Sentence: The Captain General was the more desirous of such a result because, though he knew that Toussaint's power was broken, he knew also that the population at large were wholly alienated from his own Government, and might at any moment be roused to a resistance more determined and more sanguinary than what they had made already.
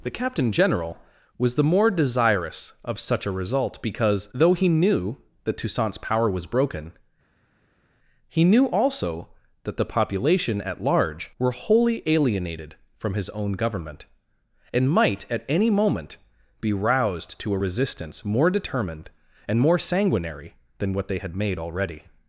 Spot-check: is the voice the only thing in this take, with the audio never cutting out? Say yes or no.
yes